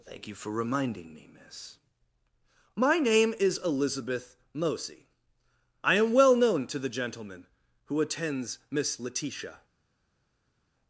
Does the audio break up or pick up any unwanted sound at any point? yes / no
no